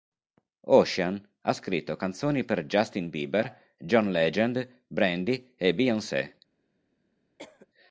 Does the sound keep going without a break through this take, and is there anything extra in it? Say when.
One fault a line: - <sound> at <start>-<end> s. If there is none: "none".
- cough at 7.4-7.7 s